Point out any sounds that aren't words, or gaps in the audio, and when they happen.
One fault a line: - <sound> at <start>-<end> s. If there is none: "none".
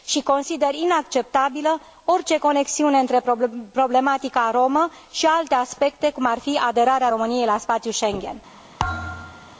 - thud at 8.8-9.6 s